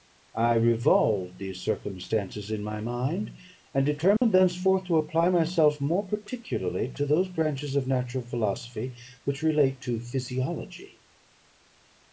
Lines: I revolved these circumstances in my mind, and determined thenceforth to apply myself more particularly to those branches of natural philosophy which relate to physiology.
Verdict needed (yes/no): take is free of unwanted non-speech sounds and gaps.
no